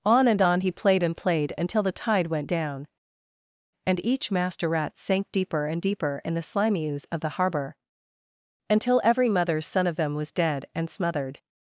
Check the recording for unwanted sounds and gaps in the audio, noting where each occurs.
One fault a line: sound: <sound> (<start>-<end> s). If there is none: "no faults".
no faults